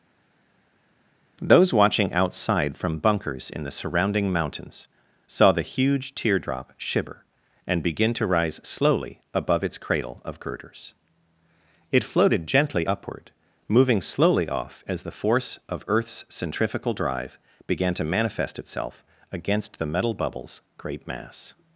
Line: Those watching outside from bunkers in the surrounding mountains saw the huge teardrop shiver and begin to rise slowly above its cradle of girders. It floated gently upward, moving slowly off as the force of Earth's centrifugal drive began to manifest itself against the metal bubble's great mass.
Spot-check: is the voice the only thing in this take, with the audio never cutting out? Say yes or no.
yes